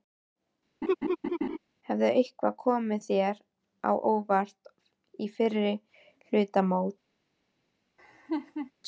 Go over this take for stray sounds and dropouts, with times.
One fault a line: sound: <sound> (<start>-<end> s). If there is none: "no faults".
sound: laugh (0.8-1.6 s)
sound: laugh (8.0-8.7 s)